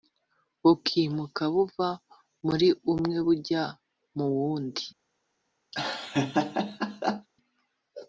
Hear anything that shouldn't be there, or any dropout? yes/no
yes